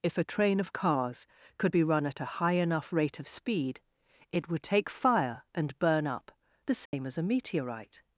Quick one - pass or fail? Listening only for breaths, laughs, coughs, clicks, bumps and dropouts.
fail